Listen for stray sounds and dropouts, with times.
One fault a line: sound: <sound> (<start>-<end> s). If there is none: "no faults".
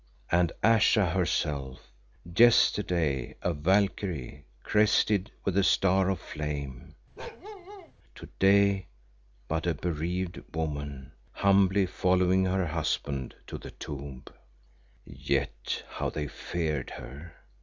sound: bark (7.2-7.9 s)